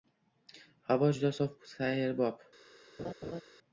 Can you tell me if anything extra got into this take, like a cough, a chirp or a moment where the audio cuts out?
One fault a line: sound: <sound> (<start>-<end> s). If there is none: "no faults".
sound: laugh (3.0-3.4 s)